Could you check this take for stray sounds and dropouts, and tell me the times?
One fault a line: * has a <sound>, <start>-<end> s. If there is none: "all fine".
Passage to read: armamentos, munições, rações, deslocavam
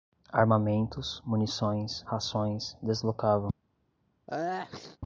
* has a sneeze, 4.3-5.0 s